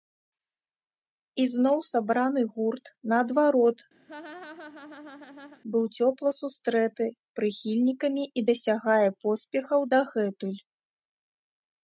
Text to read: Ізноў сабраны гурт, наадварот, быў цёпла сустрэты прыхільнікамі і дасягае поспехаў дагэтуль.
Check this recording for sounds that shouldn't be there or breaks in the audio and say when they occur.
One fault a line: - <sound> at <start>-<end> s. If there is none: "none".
- laugh at 4.1-5.6 s